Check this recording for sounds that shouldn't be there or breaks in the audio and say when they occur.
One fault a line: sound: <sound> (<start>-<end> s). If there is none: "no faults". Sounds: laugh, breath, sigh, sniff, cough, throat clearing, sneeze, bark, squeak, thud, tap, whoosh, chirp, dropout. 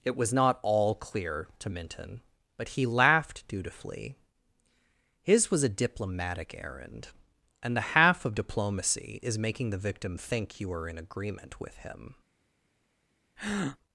sound: breath (13.4-13.8 s)